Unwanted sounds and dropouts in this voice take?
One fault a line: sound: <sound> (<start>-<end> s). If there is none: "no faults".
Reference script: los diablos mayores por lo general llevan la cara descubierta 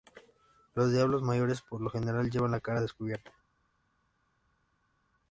no faults